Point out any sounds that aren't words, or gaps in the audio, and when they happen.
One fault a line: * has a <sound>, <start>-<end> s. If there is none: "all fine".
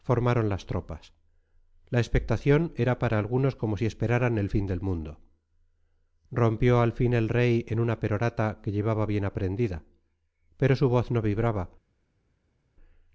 all fine